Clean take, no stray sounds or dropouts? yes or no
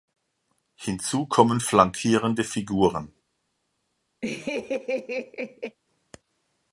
no